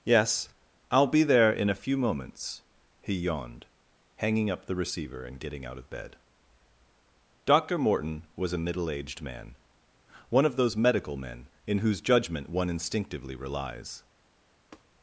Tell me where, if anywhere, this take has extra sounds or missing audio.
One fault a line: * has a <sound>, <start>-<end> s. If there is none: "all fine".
* has a tap, 14.7-14.8 s